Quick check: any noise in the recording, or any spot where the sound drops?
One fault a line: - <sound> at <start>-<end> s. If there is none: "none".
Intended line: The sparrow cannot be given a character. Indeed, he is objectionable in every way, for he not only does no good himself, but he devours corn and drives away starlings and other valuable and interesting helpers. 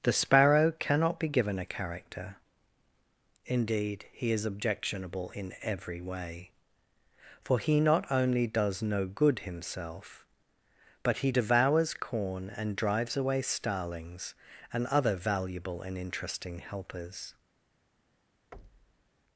- thud at 18.5-19.1 s